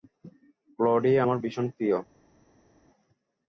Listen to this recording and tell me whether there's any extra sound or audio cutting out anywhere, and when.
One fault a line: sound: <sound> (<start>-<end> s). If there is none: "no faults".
no faults